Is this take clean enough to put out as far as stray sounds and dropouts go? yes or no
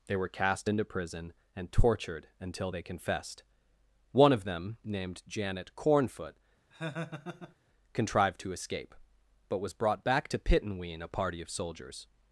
no